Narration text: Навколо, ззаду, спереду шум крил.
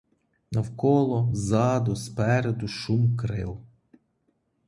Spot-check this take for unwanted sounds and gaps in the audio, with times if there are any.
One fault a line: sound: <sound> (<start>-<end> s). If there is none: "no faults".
no faults